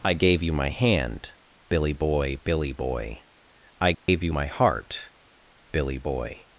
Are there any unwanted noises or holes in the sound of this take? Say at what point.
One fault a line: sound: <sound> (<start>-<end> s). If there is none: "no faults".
sound: dropout (3.9-4.1 s)